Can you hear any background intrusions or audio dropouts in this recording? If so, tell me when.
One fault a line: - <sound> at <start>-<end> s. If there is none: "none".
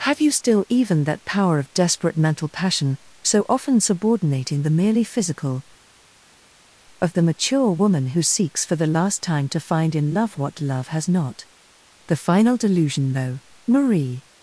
none